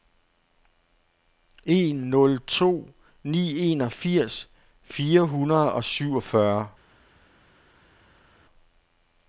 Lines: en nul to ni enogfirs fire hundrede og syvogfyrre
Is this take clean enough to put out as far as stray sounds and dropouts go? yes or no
yes